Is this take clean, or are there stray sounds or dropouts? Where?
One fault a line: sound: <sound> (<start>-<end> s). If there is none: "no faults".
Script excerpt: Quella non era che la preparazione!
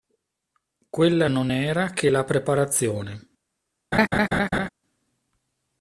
sound: laugh (3.9-4.7 s)